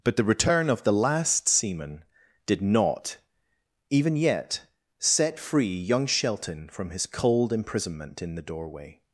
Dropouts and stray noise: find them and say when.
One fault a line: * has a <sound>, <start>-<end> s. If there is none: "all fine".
all fine